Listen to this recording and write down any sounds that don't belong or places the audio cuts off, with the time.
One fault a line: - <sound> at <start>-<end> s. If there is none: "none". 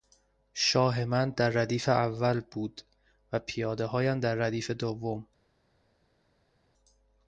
none